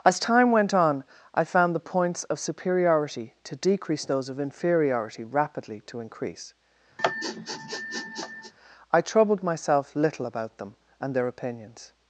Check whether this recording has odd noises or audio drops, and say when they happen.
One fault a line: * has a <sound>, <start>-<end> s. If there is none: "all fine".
* has a sniff, 7.0-8.5 s